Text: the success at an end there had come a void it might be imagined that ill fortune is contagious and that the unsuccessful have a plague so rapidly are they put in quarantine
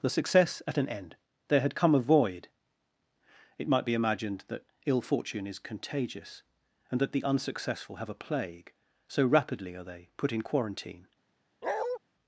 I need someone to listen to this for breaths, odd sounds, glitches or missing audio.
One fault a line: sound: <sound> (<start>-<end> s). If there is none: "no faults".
sound: bark (11.6-12.0 s)